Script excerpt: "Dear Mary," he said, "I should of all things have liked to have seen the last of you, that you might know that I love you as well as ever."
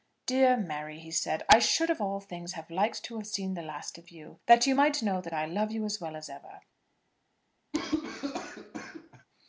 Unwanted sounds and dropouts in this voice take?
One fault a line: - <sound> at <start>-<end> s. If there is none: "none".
- cough at 7.7-9.3 s